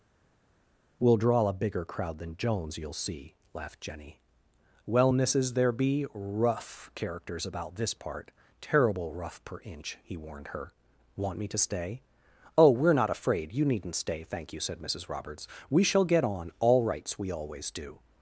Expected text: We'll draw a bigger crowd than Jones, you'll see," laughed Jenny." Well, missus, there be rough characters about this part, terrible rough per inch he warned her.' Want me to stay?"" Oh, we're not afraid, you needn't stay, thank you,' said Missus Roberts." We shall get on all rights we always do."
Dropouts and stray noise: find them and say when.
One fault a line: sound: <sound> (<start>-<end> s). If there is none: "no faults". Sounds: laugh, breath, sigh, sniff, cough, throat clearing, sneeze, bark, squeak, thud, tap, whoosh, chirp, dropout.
no faults